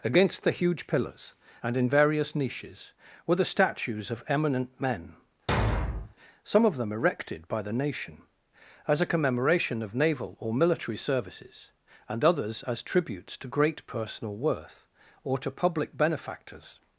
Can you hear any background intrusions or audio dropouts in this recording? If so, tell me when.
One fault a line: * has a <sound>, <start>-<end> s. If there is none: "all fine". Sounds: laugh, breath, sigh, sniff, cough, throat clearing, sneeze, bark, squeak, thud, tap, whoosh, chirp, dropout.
* has a thud, 5.5-6.1 s